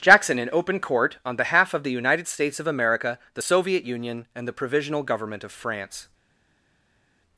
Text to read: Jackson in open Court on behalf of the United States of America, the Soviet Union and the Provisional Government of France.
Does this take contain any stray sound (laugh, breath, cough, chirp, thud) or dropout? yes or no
no